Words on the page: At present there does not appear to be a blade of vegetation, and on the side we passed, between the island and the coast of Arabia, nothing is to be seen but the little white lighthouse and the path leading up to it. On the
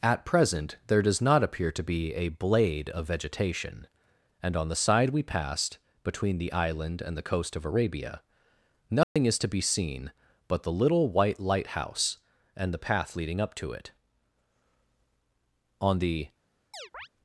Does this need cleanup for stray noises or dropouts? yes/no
yes